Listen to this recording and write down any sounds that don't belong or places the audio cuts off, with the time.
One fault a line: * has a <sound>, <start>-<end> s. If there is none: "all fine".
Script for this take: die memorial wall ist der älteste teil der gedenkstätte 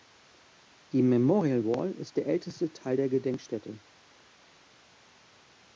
all fine